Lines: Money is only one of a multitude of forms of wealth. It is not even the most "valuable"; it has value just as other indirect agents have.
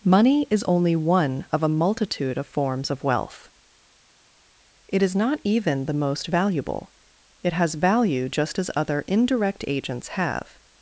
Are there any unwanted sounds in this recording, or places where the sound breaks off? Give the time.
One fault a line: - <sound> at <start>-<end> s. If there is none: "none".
none